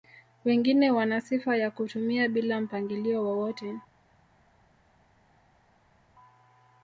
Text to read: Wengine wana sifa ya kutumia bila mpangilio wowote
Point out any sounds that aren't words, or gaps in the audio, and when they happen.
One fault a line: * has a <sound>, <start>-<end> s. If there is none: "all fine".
all fine